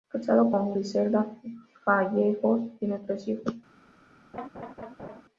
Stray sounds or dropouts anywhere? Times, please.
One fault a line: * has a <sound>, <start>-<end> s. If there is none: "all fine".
* has a laugh, 4.3-5.2 s